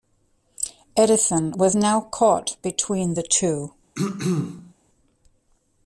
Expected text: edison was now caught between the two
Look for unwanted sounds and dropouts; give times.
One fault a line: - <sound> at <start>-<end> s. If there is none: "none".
- throat clearing at 3.9-4.7 s